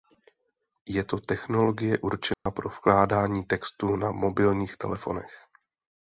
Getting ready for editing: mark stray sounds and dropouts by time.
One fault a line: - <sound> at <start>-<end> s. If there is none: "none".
- dropout at 2.3-2.5 s